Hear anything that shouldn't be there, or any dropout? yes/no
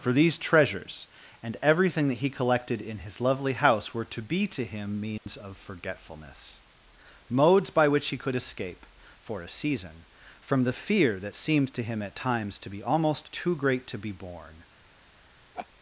yes